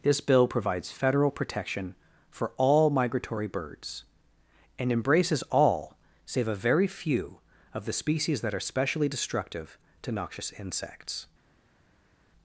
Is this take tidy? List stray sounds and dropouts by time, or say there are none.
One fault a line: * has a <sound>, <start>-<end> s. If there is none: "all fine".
all fine